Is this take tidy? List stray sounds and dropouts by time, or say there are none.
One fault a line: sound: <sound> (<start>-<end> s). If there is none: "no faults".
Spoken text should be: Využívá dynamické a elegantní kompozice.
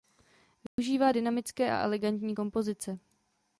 sound: dropout (0.7-0.8 s)